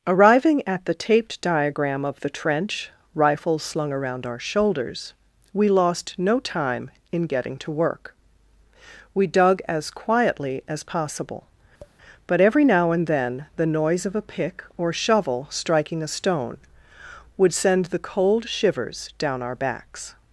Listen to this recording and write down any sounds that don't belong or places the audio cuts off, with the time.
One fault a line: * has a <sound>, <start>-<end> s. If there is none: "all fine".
* has a tap, 11.8-12.0 s